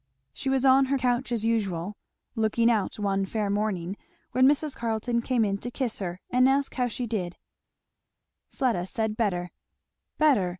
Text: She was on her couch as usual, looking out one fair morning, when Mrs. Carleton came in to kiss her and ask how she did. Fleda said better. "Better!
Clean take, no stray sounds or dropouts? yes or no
yes